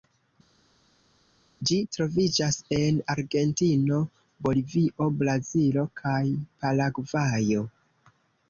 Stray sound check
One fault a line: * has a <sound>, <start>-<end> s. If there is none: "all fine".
all fine